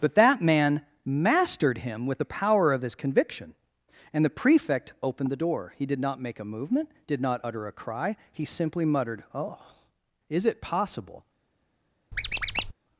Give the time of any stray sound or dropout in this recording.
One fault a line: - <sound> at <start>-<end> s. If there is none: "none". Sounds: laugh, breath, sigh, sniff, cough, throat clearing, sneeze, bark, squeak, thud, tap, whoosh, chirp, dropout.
- squeak at 12.1-12.7 s